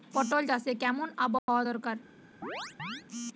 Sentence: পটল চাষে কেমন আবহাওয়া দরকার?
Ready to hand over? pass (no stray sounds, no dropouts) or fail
fail